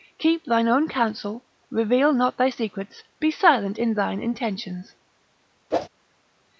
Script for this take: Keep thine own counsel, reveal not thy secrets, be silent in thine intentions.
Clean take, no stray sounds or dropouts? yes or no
no